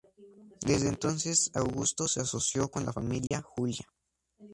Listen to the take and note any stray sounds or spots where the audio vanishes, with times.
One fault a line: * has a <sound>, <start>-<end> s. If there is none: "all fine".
* has a dropout, 3.3-3.3 s